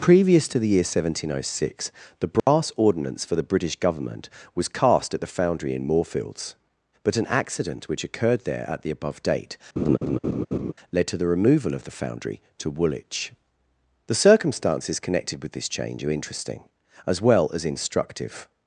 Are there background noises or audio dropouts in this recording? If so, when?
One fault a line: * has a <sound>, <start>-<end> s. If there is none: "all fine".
* has a dropout, 2.4-2.5 s
* has a laugh, 9.8-10.7 s